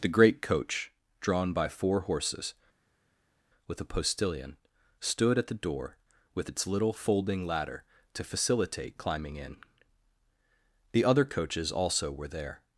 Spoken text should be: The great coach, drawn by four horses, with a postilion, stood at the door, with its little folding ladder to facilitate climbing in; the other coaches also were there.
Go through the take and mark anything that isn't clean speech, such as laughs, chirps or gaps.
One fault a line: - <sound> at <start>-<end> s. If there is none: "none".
none